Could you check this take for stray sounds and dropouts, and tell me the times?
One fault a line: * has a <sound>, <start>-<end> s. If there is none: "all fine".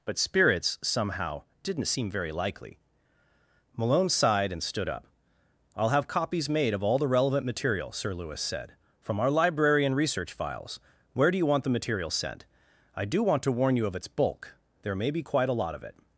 all fine